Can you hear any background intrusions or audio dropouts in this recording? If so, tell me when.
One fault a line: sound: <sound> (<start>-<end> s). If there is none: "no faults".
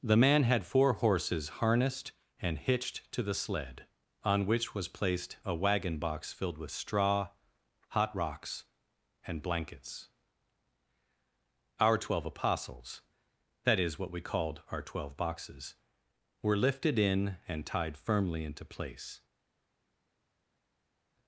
no faults